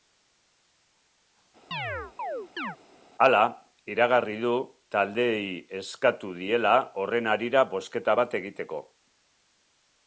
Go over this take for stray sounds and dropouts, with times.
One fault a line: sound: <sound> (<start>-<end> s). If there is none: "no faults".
sound: chirp (1.7-2.8 s)